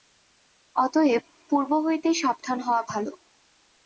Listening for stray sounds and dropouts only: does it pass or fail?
pass